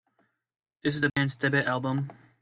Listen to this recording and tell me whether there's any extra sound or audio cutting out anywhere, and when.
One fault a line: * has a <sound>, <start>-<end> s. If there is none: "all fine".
* has a dropout, 1.1-1.2 s